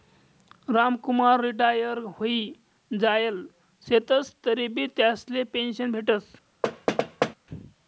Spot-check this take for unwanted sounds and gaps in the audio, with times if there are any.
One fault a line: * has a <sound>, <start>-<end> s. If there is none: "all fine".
* has a thud, 6.6-7.3 s